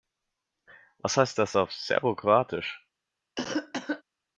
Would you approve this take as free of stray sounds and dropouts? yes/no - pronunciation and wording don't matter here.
no